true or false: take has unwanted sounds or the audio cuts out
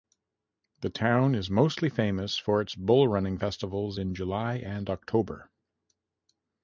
false